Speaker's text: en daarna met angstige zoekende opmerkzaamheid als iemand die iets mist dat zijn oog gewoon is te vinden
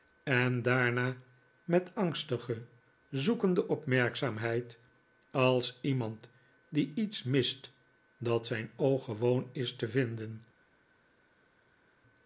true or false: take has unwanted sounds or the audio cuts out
false